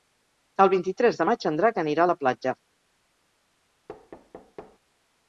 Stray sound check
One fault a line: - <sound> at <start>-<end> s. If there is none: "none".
- thud at 3.9-4.8 s